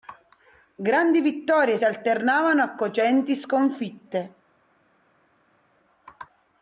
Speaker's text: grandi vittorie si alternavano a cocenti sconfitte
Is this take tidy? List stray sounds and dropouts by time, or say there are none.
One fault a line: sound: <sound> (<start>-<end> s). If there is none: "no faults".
no faults